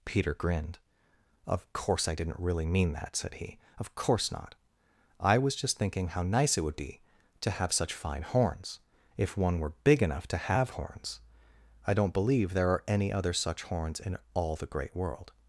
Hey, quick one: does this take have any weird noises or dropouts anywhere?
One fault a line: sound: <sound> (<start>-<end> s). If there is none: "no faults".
no faults